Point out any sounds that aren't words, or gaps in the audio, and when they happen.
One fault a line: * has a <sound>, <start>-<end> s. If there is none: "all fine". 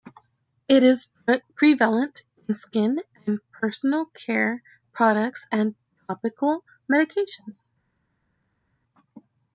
all fine